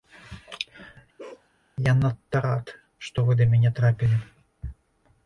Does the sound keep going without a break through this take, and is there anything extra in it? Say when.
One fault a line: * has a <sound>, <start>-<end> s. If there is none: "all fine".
* has a bark, 1.2-1.5 s